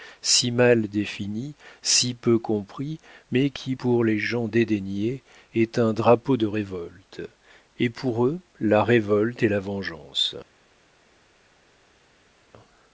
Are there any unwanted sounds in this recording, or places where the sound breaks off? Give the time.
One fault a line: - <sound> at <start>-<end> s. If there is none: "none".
none